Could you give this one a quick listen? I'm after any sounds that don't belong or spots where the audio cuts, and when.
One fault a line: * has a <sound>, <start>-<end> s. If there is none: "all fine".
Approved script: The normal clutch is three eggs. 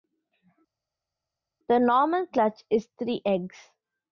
all fine